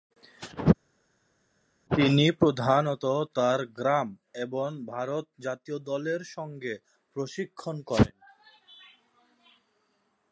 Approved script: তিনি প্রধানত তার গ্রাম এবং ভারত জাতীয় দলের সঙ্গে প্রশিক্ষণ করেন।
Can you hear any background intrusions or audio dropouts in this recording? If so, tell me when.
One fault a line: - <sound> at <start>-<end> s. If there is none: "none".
none